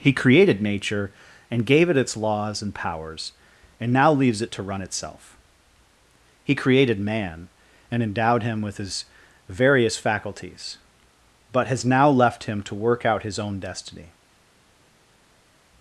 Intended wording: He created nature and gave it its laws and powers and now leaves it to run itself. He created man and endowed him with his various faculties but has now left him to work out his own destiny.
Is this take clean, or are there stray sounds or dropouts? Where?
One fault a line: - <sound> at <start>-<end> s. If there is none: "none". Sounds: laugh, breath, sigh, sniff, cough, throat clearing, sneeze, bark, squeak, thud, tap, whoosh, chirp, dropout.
none